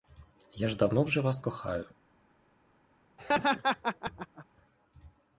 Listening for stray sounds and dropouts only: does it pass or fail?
fail